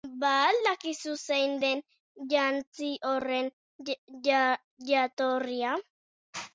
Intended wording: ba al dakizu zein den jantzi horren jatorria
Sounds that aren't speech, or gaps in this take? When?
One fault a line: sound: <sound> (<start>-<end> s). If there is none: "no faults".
no faults